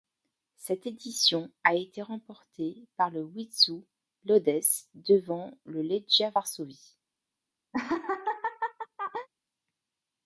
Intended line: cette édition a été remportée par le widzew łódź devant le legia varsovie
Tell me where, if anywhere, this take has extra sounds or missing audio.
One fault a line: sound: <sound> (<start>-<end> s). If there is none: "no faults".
sound: laugh (7.7-9.3 s)